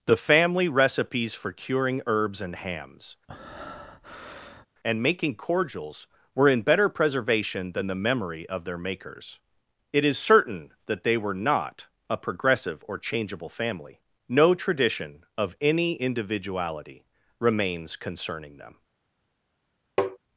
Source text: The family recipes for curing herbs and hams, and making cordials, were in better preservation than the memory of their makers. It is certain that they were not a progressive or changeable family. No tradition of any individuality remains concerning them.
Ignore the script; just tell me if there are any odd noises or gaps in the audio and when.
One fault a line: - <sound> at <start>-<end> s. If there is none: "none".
- breath at 3.3-4.7 s
- tap at 20.0-20.2 s